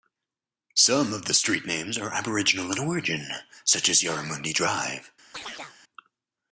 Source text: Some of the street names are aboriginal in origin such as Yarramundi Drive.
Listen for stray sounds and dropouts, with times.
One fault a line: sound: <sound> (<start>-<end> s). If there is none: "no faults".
sound: chirp (5.3-5.8 s)